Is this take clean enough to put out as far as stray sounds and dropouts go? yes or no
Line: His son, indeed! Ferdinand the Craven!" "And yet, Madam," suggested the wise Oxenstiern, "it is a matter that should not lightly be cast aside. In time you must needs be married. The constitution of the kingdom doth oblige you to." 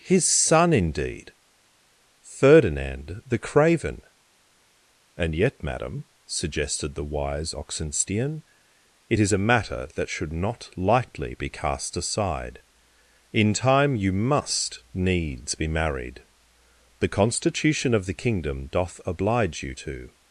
yes